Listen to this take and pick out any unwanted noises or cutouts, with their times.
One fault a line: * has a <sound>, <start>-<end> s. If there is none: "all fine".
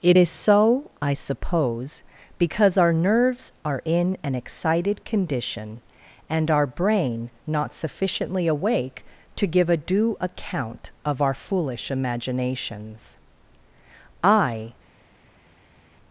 all fine